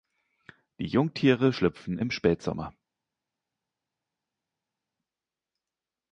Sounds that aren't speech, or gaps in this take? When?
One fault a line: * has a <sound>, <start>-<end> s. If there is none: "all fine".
all fine